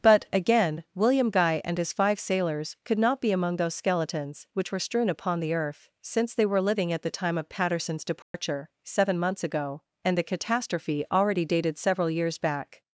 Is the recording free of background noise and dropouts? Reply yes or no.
no